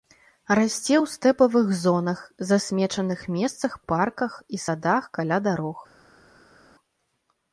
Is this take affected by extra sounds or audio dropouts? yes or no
no